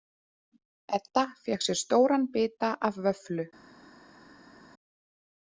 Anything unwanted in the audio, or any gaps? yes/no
no